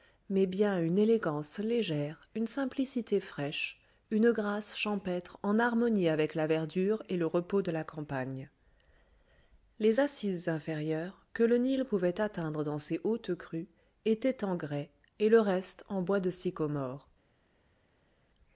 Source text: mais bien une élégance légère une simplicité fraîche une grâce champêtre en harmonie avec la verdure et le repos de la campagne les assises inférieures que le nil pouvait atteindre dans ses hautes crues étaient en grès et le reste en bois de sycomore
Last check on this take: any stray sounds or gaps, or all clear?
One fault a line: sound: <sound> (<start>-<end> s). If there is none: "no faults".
no faults